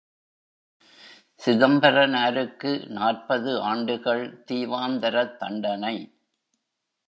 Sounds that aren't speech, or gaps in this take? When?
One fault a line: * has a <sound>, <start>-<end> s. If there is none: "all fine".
all fine